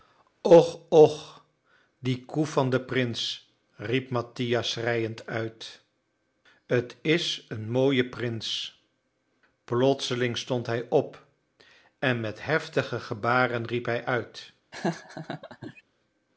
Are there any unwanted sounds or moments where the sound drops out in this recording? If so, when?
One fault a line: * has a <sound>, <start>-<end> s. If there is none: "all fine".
* has a laugh, 14.7-15.8 s